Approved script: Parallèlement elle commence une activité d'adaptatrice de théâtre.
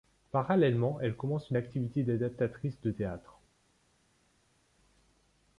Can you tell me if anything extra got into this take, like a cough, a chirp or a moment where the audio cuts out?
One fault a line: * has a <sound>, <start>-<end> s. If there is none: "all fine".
all fine